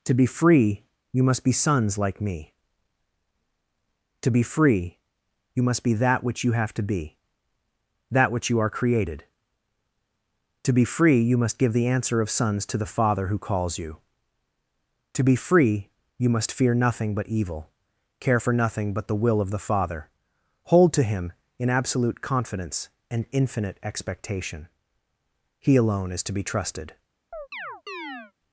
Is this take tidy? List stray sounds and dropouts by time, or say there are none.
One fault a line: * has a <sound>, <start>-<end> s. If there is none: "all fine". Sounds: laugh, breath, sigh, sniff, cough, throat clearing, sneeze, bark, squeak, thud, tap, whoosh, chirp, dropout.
* has a chirp, 27.3-28.3 s